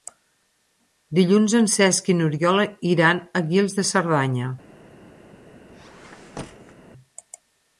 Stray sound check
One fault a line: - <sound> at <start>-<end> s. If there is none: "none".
- squeak at 5.7-6.8 s